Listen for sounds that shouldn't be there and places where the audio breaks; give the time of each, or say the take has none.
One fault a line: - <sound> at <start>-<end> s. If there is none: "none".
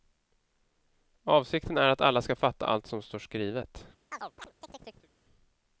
- chirp at 4.1-5.1 s